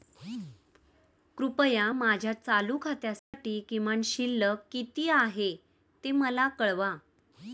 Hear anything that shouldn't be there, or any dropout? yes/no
yes